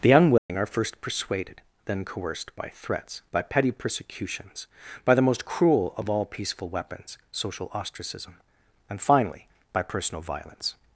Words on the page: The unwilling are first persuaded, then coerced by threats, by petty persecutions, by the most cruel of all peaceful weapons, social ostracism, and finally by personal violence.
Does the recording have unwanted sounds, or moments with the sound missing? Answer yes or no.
yes